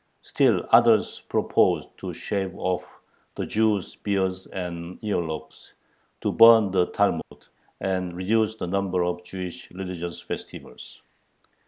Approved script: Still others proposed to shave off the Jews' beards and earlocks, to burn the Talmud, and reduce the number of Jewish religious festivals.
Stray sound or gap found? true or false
true